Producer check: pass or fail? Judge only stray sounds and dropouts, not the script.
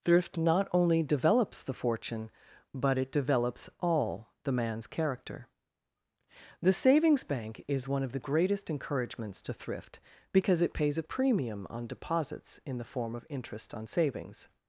pass